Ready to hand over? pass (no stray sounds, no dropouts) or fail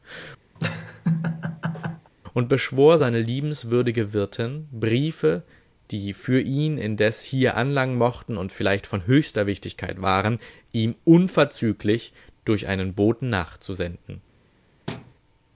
fail